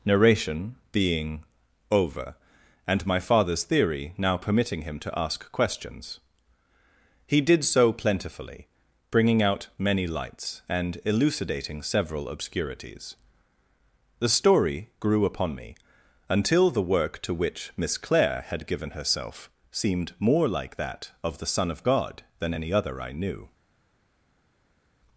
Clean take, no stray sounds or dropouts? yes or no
yes